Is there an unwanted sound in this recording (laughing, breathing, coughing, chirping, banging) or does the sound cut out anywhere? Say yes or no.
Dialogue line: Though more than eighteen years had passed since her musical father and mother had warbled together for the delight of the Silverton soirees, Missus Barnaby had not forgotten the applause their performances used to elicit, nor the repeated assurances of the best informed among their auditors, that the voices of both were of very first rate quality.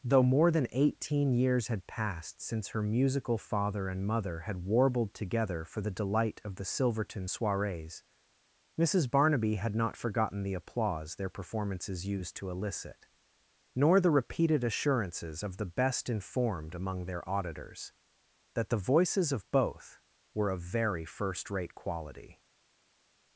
no